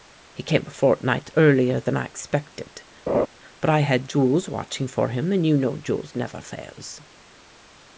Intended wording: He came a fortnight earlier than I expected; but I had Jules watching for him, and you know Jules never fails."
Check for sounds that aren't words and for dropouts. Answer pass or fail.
fail